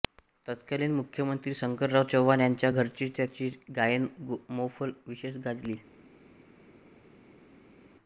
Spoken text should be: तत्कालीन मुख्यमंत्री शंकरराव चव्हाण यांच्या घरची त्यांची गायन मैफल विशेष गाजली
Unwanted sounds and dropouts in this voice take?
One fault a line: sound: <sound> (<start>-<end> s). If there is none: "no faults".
no faults